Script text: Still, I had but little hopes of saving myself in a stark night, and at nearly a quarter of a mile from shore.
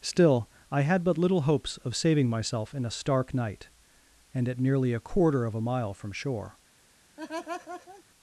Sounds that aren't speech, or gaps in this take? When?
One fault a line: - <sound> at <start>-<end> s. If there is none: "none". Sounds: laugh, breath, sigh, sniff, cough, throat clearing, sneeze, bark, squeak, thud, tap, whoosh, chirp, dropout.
- laugh at 7.2-8.0 s